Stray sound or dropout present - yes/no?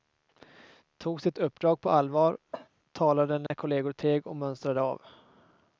yes